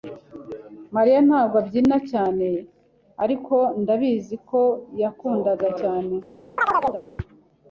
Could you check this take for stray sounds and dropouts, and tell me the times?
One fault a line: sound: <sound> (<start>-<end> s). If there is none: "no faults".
sound: chirp (6.6-7.0 s)